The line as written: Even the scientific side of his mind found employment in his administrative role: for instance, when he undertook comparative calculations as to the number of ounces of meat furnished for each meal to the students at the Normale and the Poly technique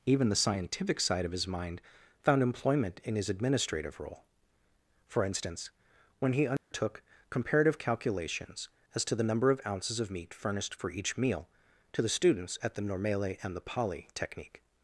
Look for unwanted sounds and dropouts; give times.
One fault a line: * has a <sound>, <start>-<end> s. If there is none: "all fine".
* has a dropout, 6.6-6.7 s